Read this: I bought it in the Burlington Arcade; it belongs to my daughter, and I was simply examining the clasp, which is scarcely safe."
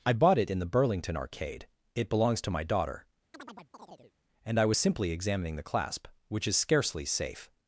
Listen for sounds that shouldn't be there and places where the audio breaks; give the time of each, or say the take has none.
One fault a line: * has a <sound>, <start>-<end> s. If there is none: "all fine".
* has a chirp, 3.3-4.1 s